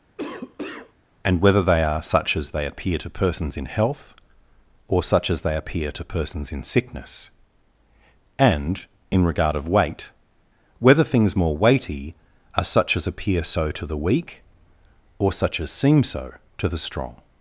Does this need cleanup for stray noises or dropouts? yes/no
yes